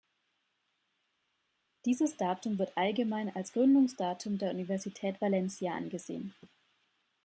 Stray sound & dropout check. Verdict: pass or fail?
pass